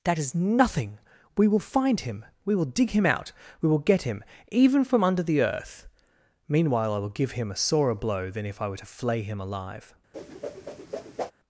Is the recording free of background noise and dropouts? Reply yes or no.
no